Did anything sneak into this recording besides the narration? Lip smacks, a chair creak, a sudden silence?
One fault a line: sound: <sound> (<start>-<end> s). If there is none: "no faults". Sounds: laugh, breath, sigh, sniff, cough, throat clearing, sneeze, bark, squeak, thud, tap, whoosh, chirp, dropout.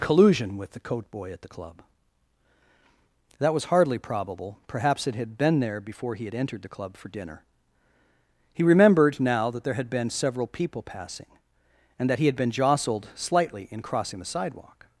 no faults